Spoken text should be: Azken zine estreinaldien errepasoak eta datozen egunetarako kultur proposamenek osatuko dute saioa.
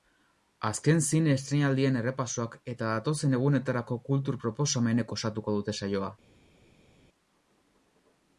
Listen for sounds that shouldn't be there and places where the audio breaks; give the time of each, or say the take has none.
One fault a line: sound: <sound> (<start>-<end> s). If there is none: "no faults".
no faults